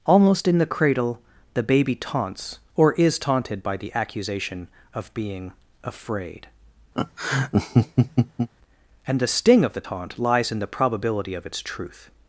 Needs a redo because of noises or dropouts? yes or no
yes